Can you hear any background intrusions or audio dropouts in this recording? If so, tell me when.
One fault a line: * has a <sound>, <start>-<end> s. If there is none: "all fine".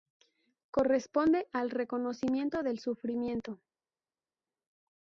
all fine